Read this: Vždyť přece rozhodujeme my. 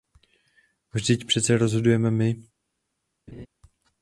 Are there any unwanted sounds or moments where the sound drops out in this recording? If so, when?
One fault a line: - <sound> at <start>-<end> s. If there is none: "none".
- laugh at 3.3-3.5 s